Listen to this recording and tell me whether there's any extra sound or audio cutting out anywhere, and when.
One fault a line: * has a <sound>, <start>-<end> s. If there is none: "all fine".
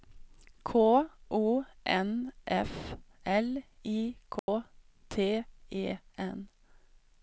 * has a dropout, 4.4-4.5 s